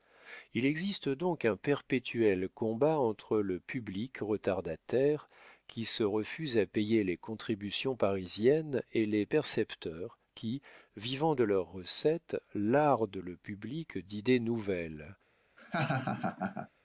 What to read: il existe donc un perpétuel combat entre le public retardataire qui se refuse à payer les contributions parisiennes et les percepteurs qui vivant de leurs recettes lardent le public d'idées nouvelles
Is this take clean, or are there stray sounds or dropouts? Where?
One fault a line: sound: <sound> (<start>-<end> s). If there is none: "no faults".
sound: laugh (15.6-16.7 s)